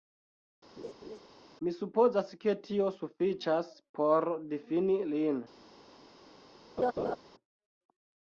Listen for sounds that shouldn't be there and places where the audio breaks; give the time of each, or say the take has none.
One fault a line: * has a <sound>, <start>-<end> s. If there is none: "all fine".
* has a laugh, 0.8-1.2 s
* has a laugh, 6.8-7.2 s